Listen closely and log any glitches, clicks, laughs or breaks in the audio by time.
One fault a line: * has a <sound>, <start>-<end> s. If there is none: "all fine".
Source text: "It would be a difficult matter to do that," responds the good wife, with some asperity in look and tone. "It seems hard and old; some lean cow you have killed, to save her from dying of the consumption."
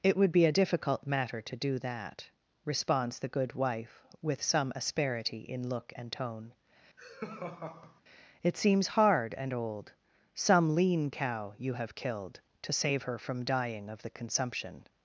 * has a laugh, 7.0-8.0 s